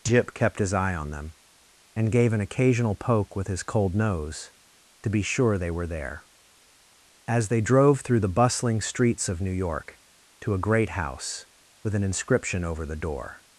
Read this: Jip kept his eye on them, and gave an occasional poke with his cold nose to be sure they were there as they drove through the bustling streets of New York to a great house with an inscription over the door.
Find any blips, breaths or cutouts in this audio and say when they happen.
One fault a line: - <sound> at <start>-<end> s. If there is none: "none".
none